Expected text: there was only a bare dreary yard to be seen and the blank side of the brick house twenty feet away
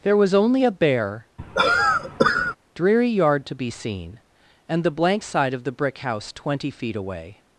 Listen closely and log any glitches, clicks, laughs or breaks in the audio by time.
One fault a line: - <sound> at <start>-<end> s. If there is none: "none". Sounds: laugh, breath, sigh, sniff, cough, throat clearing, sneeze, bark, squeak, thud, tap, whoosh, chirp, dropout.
- cough at 1.4-2.6 s